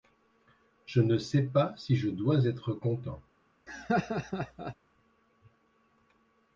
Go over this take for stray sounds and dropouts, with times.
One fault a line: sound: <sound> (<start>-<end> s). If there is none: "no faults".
sound: laugh (3.7-4.8 s)